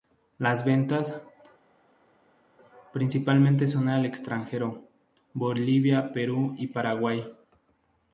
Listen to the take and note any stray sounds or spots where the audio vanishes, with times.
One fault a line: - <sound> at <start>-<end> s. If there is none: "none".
none